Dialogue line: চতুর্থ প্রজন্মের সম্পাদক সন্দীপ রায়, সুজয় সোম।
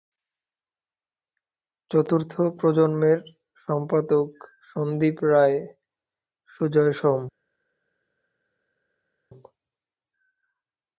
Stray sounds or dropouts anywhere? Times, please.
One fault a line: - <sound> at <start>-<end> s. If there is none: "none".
none